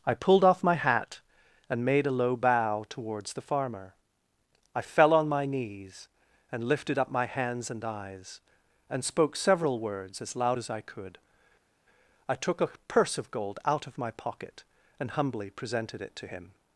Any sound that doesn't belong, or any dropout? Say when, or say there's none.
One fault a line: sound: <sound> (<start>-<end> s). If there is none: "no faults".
no faults